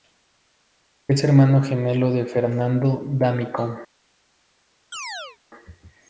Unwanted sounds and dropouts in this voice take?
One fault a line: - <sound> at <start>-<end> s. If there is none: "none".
- chirp at 4.9-5.4 s